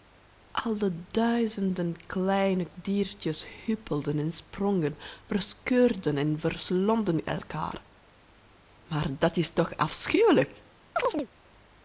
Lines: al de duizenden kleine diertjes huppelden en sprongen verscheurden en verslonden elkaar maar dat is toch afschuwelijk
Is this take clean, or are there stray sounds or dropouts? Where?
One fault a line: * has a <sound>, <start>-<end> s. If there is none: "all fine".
* has a chirp, 11.0-11.3 s